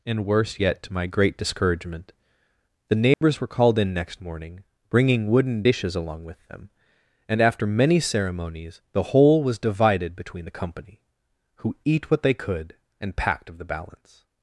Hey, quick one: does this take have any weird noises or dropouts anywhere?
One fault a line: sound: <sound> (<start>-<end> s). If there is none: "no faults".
sound: dropout (3.1-3.2 s)